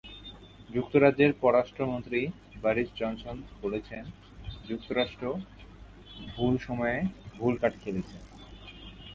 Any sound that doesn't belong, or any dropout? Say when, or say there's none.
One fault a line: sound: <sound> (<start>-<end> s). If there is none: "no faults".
no faults